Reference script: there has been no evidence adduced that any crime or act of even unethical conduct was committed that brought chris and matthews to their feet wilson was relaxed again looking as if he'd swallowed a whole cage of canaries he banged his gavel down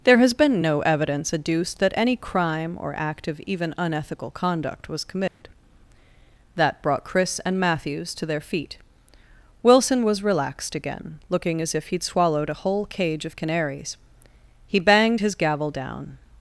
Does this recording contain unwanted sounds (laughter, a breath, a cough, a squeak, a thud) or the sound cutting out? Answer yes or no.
yes